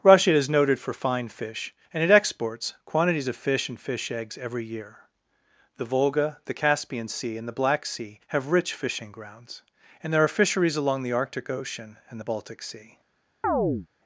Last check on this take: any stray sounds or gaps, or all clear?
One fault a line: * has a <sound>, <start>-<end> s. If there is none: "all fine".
* has a chirp, 13.4-13.9 s